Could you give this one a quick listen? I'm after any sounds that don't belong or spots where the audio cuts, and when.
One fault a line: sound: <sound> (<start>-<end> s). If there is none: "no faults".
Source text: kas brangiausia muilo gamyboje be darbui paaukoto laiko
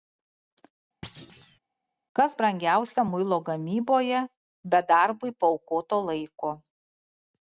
sound: thud (1.0-1.6 s)